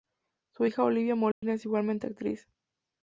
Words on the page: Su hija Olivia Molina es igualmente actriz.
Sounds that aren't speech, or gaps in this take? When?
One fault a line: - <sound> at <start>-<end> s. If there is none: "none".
- dropout at 1.3-1.4 s